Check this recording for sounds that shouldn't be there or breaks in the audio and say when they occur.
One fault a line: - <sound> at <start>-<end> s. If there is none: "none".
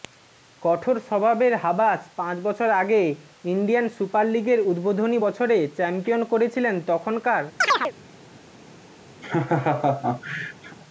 - chirp at 7.6-7.9 s
- laugh at 9.2-10.8 s